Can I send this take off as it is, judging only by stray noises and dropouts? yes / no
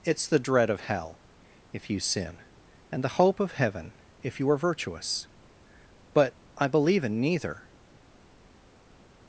yes